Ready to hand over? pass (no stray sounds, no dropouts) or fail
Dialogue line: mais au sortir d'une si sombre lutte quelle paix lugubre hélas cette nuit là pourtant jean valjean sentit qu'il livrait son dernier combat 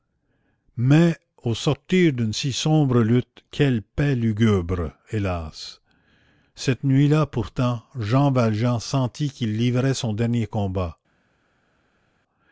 pass